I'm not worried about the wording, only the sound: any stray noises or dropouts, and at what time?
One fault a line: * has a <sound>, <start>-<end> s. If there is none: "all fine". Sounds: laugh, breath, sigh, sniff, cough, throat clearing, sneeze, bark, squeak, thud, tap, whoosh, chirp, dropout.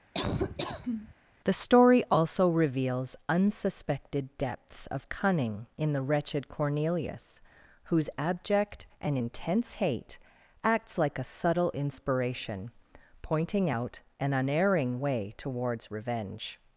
* has a laugh, 0.1-1.1 s